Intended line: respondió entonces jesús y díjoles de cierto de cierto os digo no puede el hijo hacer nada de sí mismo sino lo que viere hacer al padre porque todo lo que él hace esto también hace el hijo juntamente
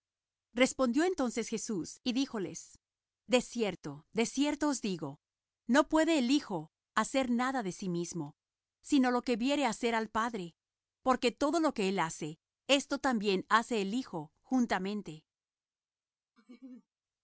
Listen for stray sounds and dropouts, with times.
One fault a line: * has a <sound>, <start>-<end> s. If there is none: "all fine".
* has a laugh, 16.4-16.9 s